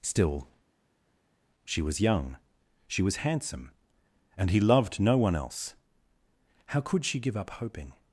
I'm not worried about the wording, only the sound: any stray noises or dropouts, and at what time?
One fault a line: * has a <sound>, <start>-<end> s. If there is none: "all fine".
all fine